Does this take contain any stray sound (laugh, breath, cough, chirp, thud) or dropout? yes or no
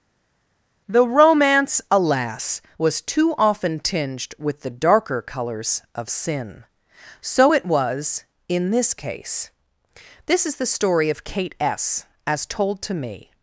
no